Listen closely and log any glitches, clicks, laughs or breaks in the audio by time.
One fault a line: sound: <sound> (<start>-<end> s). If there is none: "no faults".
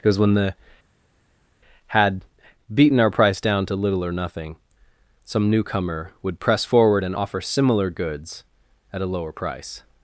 no faults